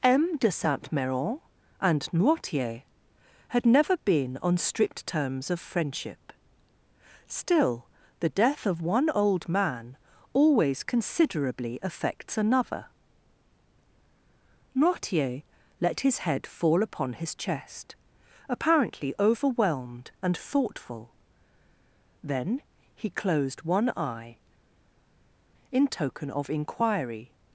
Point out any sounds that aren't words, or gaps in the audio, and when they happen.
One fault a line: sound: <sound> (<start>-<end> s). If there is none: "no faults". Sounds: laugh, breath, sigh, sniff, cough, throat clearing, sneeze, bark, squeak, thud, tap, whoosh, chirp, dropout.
no faults